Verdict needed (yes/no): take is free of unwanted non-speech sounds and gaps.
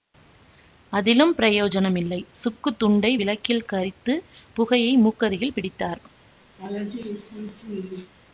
no